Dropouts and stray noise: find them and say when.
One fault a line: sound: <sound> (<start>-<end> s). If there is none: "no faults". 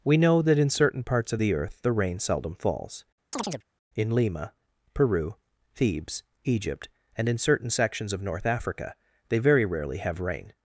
sound: chirp (3.3-3.6 s)